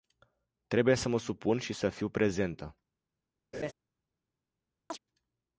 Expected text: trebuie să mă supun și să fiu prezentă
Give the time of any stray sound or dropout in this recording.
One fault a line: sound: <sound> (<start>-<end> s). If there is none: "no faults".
sound: laugh (3.5-3.7 s)
sound: chirp (4.9-5.0 s)